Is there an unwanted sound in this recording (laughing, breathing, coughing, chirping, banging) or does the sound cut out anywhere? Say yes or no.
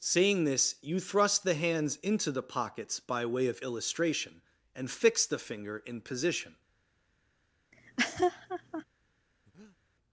yes